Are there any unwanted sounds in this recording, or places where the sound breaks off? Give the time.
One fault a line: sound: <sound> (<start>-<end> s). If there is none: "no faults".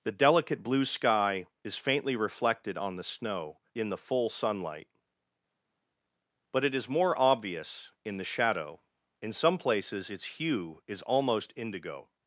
no faults